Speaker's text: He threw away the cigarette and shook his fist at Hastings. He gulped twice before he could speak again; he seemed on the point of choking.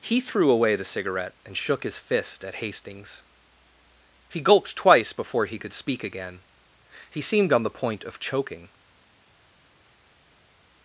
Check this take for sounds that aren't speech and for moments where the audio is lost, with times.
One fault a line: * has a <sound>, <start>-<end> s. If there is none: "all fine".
all fine